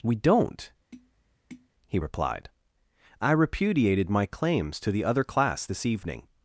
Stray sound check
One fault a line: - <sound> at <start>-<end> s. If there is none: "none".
- tap at 0.9-1.7 s